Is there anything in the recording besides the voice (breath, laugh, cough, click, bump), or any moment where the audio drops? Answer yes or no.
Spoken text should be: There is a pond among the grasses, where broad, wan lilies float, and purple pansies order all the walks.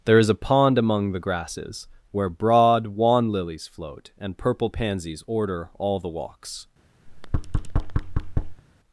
yes